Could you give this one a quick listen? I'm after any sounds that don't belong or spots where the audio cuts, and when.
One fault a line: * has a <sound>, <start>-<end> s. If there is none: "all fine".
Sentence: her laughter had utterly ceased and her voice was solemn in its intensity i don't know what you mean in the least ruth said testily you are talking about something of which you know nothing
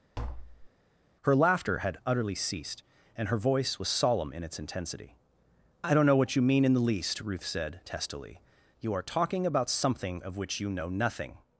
* has a tap, 0.2-0.7 s